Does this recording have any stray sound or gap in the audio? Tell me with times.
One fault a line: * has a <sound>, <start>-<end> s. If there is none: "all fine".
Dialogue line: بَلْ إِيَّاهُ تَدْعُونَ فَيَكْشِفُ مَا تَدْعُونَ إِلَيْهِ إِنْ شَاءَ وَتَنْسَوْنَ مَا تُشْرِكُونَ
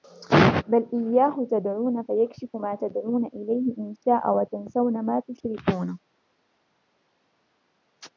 all fine